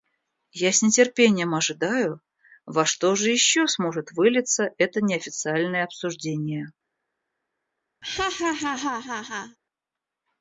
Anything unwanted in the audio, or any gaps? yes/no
yes